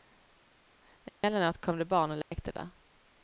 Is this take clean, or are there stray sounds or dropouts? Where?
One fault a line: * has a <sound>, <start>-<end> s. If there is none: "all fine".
* has a dropout, 1.1-1.2 s
* has a dropout, 2.2-2.3 s